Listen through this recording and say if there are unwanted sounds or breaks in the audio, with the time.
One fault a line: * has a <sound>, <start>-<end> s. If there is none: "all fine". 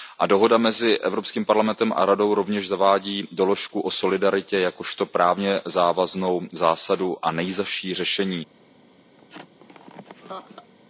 * has a laugh, 9.2-10.7 s